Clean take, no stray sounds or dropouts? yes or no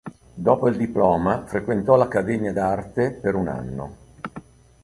yes